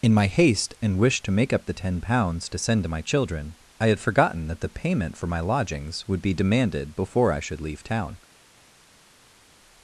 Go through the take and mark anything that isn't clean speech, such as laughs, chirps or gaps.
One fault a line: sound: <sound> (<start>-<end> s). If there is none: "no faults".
no faults